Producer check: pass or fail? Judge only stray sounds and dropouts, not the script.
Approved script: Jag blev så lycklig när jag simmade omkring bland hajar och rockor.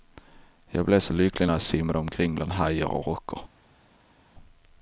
pass